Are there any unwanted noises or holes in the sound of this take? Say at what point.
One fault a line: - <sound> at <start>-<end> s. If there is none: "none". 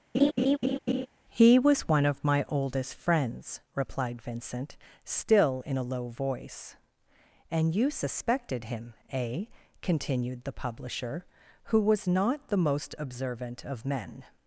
- laugh at 0.1-1.1 s